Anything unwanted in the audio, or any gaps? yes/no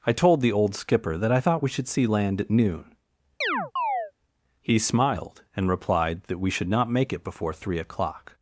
yes